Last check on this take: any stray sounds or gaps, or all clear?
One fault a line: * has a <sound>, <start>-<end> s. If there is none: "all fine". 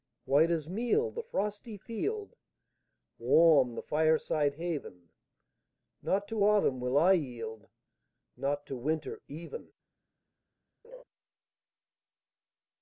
* has a laugh, 10.8-11.0 s